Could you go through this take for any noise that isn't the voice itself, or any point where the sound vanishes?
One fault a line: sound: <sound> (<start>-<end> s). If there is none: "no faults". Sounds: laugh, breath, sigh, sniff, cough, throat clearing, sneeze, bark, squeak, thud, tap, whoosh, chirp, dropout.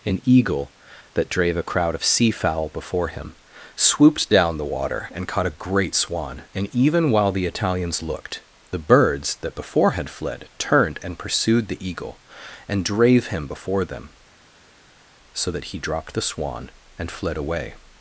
no faults